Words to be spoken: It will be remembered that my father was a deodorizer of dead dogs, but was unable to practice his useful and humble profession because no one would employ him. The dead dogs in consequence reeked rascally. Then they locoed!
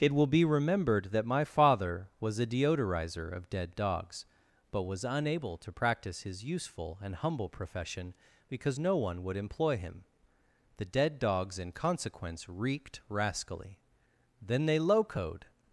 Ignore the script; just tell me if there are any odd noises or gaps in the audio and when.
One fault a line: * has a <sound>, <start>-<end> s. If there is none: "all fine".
all fine